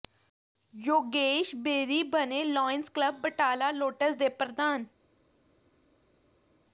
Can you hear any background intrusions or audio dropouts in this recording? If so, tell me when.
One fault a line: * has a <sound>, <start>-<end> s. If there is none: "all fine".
all fine